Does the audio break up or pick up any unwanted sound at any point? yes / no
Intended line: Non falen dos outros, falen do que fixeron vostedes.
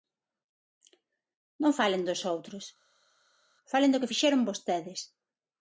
no